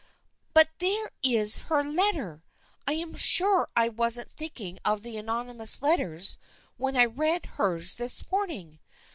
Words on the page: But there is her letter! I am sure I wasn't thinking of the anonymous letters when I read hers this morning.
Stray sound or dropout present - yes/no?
no